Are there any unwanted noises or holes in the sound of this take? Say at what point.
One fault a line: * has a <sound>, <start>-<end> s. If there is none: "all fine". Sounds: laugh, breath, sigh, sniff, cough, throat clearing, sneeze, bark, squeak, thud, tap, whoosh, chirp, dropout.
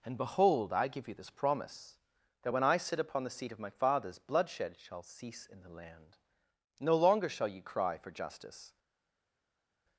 all fine